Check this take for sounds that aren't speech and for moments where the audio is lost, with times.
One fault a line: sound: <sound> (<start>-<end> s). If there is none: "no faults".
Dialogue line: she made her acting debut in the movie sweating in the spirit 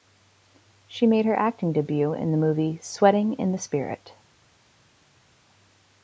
no faults